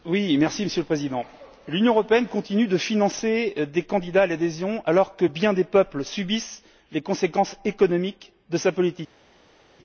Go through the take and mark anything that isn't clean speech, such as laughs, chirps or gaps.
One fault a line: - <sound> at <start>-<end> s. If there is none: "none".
none